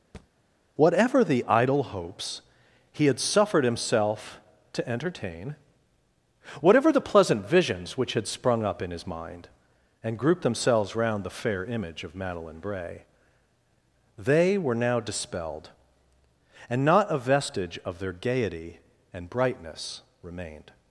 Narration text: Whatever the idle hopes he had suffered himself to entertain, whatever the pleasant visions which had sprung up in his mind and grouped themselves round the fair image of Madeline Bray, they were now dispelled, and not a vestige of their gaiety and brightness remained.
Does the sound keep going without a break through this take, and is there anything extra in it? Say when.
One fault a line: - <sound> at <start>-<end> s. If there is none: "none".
- thud at 0.1-0.3 s